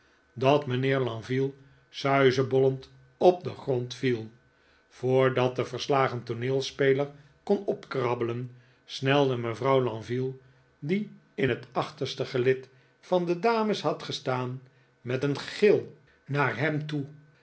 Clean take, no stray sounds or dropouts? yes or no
yes